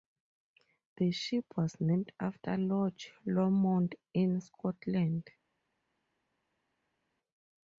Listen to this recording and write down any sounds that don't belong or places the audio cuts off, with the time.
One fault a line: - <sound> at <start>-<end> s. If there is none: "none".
none